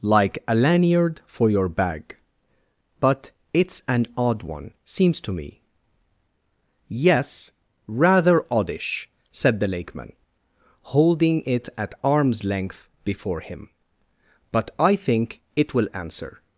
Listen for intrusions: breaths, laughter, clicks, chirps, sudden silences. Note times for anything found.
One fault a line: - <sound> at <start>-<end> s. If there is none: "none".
none